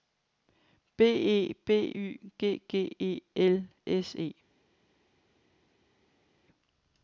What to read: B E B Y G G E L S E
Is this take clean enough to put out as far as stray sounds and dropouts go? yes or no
yes